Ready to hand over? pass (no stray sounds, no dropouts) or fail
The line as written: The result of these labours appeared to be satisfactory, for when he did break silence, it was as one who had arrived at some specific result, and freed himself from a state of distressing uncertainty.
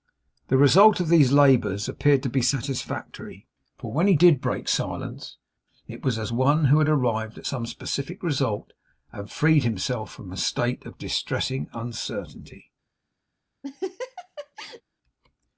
fail